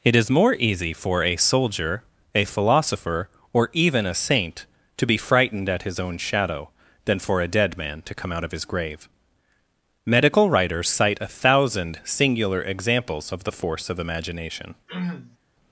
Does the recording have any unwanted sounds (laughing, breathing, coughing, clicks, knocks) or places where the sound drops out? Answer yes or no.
yes